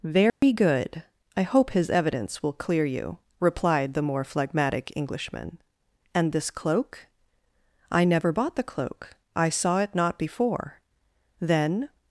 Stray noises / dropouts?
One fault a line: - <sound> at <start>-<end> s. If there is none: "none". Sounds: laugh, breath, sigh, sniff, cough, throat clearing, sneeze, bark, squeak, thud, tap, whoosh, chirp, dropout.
- dropout at 0.3-0.4 s